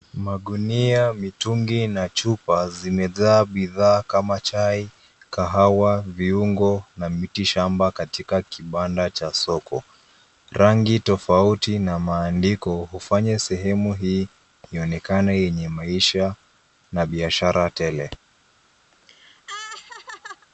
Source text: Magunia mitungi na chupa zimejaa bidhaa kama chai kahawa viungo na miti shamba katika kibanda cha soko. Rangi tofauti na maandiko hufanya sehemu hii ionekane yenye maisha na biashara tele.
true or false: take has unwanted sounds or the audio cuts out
true